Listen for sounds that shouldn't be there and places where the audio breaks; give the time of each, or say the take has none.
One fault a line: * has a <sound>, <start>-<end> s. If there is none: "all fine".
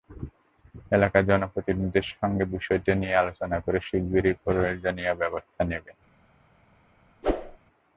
* has a whoosh, 7.2-7.6 s